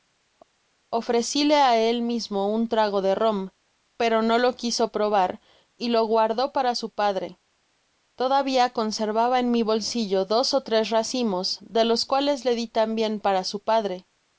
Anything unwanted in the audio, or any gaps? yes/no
no